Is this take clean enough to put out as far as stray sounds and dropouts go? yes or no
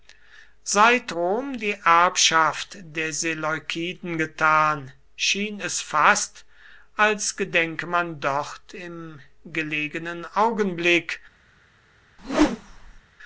no